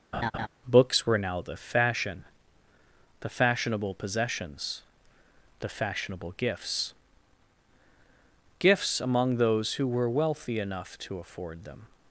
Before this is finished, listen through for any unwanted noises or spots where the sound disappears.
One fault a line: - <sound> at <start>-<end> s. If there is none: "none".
- laugh at 0.1-0.5 s